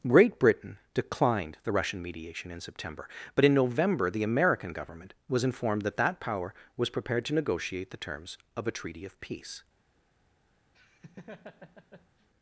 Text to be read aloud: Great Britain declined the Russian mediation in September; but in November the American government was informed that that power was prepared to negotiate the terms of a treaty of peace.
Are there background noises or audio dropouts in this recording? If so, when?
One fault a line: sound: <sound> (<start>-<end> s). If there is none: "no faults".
sound: laugh (10.7-12.3 s)